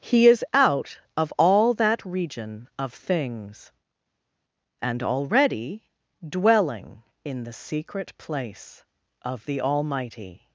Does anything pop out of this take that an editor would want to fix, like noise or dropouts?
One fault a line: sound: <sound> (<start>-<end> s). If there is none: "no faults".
no faults